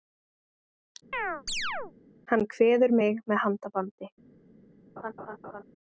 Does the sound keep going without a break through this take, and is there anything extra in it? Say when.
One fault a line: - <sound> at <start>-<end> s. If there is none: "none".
- chirp at 1.1-1.9 s
- laugh at 5.0-5.6 s